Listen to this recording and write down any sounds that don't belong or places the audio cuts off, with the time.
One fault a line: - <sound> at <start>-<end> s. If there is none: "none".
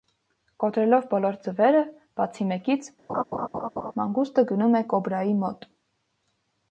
- laugh at 3.1-3.9 s